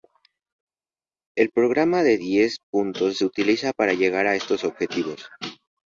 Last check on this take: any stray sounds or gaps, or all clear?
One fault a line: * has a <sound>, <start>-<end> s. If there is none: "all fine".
all fine